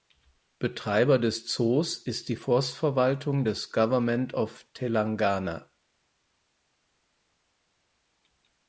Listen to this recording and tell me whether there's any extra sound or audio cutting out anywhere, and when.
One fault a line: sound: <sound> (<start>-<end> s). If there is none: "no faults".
no faults